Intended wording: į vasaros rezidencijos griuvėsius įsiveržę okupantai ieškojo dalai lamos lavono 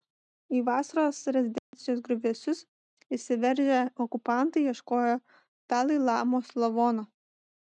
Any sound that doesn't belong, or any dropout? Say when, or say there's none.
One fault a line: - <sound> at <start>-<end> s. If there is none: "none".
- dropout at 1.6-1.7 s